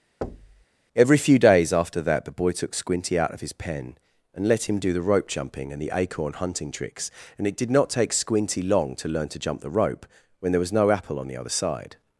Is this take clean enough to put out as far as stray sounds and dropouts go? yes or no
no